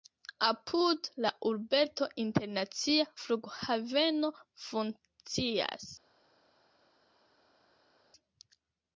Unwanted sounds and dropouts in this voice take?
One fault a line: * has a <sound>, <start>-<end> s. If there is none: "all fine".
all fine